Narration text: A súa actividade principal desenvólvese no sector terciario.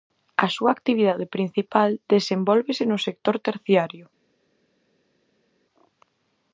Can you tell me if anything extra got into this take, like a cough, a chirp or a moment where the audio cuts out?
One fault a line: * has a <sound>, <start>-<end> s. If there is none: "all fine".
all fine